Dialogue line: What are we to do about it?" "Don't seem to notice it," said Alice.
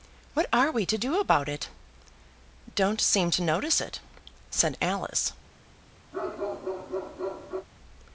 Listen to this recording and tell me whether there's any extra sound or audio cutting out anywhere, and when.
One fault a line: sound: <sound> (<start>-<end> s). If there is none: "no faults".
sound: bark (6.1-7.7 s)